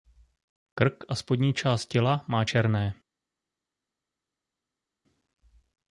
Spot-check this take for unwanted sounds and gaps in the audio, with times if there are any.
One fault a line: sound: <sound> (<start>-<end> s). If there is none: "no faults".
no faults